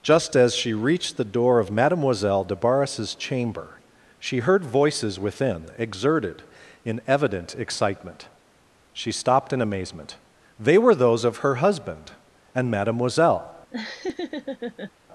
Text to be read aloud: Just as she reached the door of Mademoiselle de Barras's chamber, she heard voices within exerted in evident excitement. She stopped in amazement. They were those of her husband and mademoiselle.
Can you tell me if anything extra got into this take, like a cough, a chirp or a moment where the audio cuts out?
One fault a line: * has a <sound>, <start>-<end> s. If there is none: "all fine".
* has a laugh, 13.7-14.9 s